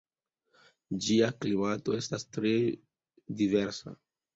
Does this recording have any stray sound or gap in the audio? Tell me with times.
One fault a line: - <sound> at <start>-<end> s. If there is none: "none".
none